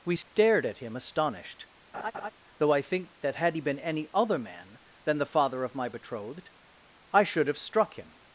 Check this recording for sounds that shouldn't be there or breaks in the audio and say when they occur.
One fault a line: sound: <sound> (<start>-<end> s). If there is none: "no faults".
sound: dropout (0.2-0.3 s)
sound: laugh (1.9-2.3 s)